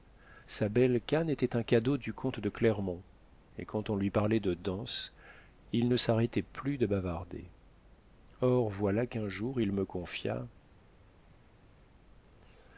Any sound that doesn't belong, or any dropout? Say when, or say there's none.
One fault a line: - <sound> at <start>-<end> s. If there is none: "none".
none